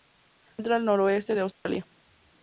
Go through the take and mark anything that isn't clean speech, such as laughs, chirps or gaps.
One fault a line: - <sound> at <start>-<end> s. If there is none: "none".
- dropout at 1.5-1.7 s